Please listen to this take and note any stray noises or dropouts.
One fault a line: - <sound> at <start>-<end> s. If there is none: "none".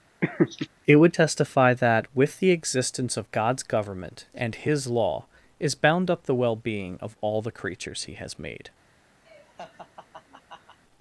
- laugh at 0.2-0.7 s
- laugh at 9.2-10.8 s